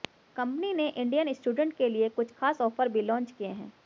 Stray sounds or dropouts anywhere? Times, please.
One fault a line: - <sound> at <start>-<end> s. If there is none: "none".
none